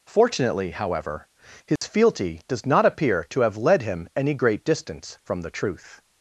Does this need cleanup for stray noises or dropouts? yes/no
yes